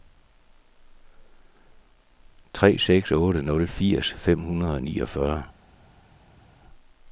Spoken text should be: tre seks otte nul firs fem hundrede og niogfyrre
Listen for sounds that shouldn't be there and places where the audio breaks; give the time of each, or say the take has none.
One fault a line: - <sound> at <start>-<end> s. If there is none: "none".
none